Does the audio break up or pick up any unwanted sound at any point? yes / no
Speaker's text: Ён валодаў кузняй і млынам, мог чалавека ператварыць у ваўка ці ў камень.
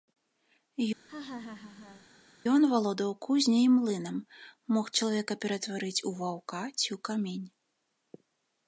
yes